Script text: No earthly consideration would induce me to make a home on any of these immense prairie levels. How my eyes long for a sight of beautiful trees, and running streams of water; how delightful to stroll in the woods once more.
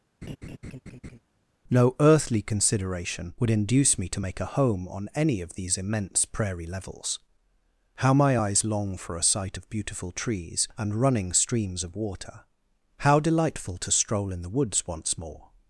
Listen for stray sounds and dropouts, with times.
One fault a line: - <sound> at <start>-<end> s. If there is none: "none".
- laugh at 0.2-1.2 s